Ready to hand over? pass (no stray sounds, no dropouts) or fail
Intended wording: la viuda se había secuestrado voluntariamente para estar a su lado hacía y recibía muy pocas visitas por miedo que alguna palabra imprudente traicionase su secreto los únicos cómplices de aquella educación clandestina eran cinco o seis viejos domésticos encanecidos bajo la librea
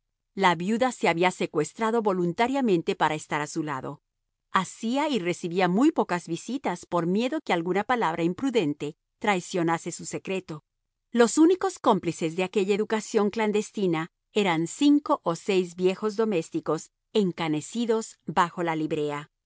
pass